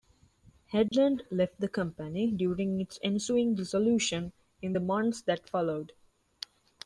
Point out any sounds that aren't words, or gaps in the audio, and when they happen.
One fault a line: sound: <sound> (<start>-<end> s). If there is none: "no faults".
sound: dropout (0.9-0.9 s)